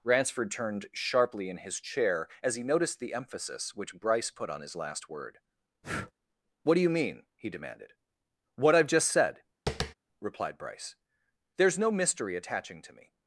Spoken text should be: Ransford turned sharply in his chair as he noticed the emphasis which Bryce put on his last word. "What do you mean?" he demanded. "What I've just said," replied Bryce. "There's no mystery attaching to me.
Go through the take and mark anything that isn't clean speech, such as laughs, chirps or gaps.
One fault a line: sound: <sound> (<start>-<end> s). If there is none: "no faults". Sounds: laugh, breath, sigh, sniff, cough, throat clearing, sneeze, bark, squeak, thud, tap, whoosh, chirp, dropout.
sound: breath (5.8-6.1 s)
sound: tap (9.7-9.9 s)